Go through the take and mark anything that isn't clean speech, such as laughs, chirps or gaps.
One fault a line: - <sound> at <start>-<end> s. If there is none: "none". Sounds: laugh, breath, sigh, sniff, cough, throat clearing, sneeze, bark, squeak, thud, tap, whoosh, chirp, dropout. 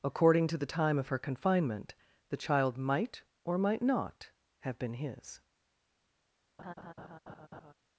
- laugh at 6.6-7.7 s